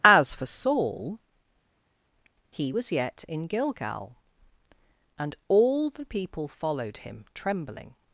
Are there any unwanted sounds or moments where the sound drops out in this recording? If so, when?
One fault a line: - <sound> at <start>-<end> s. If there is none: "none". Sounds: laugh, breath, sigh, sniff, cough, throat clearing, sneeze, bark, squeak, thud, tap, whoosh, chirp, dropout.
none